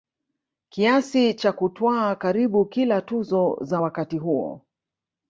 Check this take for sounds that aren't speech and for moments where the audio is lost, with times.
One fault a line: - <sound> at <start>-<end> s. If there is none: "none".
none